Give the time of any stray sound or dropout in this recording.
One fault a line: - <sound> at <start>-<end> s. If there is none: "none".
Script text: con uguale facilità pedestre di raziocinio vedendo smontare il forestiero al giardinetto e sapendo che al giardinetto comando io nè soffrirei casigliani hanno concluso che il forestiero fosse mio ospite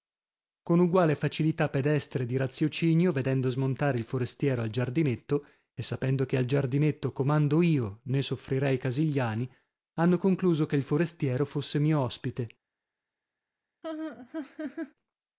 - laugh at 13.8-14.9 s